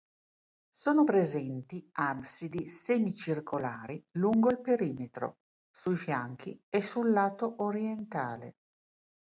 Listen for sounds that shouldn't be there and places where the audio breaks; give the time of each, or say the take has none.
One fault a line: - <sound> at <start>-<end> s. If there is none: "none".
none